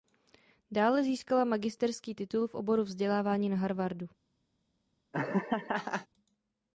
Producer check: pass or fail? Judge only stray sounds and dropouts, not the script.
fail